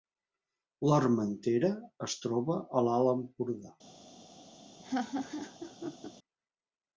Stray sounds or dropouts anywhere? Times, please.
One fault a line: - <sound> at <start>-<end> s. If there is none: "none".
- laugh at 4.8-6.1 s